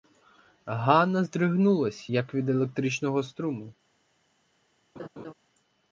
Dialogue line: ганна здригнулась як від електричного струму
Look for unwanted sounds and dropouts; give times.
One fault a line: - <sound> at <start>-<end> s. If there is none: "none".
- laugh at 5.0-5.3 s